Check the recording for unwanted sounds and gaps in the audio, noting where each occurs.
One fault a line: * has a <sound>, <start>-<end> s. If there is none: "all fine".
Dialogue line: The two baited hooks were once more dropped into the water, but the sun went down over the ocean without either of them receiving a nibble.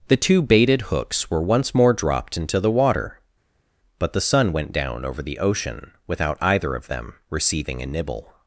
all fine